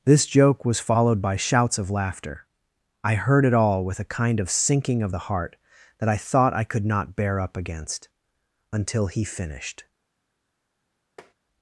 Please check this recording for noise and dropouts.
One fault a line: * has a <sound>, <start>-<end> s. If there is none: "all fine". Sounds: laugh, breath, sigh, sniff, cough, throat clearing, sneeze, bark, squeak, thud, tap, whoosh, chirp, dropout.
* has a tap, 11.2-11.3 s